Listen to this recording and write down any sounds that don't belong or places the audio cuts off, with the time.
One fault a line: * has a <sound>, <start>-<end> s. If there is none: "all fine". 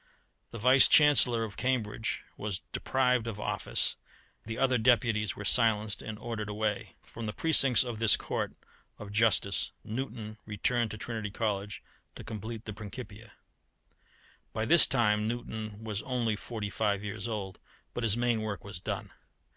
all fine